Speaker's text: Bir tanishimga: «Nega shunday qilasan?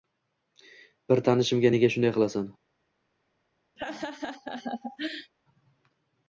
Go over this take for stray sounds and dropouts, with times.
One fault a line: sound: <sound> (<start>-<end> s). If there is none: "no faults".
sound: laugh (3.8-5.3 s)